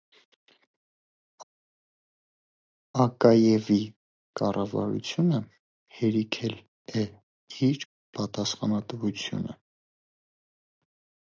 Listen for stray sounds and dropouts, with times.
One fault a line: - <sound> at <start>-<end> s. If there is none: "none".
none